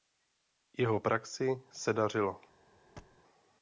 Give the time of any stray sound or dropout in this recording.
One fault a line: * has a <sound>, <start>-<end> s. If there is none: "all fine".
* has a thud, 3.0-3.2 s